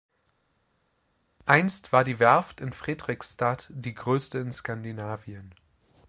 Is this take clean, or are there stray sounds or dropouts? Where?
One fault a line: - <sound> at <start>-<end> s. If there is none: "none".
none